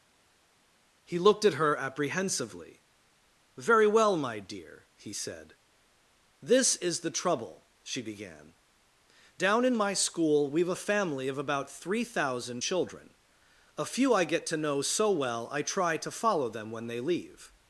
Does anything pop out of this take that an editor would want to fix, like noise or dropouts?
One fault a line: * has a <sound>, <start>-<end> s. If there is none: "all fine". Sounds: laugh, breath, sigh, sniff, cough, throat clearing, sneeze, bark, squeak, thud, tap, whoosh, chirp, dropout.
all fine